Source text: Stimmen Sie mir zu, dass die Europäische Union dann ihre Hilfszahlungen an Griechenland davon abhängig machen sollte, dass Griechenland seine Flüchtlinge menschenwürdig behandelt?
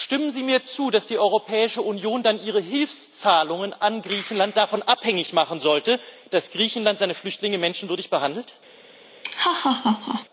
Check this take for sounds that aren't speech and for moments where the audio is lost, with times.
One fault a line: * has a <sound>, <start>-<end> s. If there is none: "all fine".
* has a laugh, 9.2-10.3 s